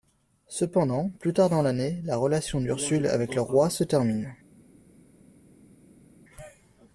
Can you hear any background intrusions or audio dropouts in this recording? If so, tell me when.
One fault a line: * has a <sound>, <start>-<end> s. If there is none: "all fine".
all fine